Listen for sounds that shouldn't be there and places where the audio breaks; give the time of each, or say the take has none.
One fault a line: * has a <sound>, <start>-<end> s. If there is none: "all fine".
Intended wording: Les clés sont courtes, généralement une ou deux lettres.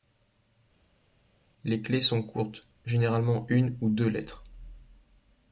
all fine